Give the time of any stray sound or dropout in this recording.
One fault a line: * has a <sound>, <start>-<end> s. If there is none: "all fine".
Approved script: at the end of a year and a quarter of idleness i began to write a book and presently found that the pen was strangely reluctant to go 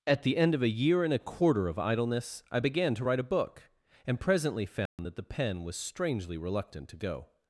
* has a dropout, 4.9-5.0 s